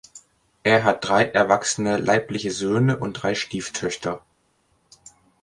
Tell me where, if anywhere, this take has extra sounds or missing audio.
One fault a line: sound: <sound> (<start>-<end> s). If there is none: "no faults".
no faults